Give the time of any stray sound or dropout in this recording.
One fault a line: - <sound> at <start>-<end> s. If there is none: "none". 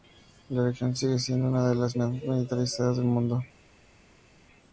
none